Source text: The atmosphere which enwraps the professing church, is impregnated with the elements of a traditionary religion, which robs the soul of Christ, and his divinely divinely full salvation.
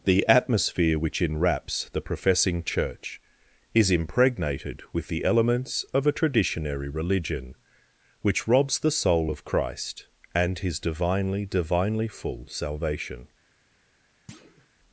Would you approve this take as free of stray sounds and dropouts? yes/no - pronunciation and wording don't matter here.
no